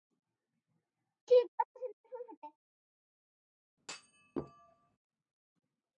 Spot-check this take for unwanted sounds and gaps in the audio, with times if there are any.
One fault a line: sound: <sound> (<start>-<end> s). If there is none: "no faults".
sound: thud (3.8-5.0 s)